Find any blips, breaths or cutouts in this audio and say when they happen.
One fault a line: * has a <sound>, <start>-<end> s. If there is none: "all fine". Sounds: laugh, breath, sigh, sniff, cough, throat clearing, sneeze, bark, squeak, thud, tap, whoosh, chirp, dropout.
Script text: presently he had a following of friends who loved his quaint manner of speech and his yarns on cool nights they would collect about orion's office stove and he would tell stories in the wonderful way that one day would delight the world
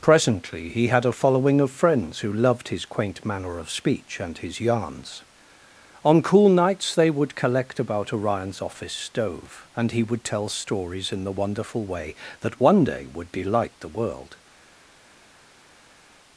all fine